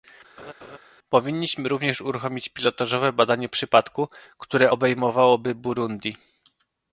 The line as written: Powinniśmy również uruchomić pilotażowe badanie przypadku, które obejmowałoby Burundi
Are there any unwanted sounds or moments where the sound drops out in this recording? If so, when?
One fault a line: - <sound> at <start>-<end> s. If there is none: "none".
- laugh at 0.4-0.8 s